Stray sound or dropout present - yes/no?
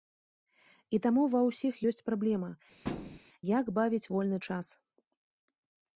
yes